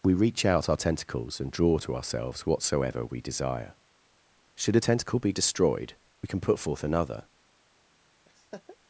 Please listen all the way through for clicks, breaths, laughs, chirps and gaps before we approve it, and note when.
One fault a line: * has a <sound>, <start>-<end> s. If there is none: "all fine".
* has a laugh, 8.3-8.8 s